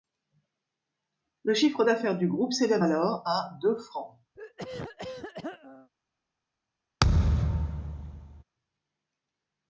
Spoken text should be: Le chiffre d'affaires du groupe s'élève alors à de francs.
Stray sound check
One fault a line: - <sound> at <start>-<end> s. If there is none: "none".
- throat clearing at 4.3-5.9 s
- thud at 7.0-8.4 s